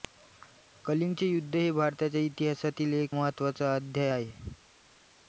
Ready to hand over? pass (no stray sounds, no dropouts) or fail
pass